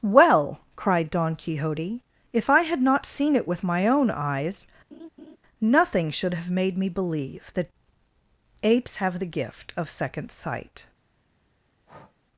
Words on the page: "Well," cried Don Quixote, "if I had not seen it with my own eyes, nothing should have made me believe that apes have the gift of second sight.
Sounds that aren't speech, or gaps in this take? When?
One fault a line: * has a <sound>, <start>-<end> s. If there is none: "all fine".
* has a laugh, 4.9-5.4 s
* has a breath, 11.8-12.2 s